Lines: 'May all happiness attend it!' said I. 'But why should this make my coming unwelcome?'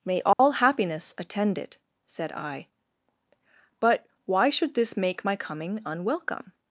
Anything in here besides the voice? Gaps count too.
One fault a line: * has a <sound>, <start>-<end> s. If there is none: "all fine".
* has a dropout, 0.3-0.4 s